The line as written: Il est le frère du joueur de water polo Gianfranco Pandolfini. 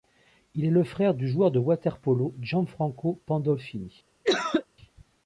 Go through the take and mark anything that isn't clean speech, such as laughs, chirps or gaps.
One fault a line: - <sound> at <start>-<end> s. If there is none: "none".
- cough at 4.2-4.7 s